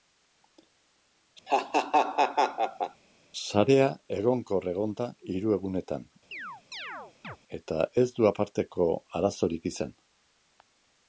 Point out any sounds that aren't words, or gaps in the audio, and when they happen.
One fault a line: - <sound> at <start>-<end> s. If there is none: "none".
- laugh at 1.5-3.0 s
- chirp at 6.3-7.4 s